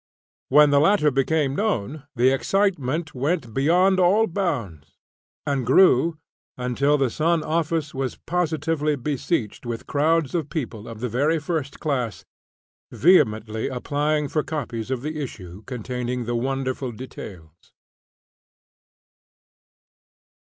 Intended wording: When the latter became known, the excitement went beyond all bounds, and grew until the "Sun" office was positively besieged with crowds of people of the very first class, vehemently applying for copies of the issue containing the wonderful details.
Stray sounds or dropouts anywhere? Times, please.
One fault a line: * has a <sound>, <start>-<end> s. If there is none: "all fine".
all fine